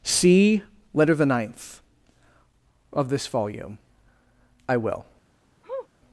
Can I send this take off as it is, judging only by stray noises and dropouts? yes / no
no